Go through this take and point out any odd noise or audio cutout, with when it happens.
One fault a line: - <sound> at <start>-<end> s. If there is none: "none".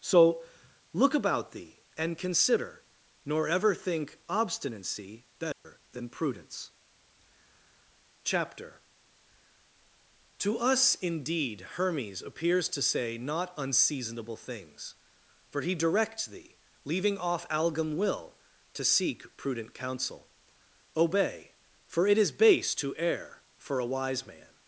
- dropout at 5.5-5.6 s